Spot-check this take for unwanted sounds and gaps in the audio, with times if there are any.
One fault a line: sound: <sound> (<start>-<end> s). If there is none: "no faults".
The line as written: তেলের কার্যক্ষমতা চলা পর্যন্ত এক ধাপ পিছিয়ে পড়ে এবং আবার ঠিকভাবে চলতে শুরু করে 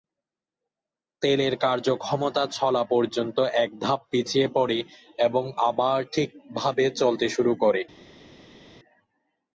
no faults